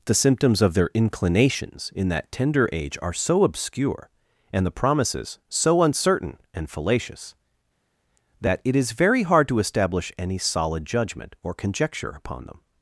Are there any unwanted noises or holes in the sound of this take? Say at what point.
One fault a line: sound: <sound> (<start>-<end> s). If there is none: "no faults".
no faults